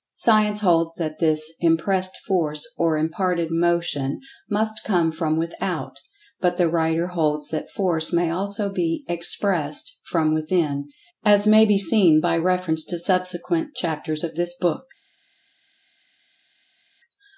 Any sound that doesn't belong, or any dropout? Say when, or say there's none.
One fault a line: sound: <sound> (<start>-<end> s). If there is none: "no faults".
no faults